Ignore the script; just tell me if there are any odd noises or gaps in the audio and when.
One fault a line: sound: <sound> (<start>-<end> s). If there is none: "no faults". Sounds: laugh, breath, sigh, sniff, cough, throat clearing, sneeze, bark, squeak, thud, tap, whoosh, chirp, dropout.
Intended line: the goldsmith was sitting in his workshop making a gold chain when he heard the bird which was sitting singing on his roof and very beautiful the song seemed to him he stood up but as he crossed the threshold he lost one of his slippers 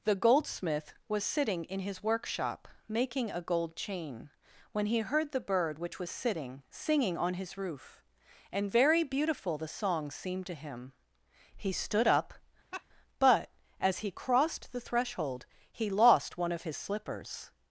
sound: laugh (12.7-12.8 s)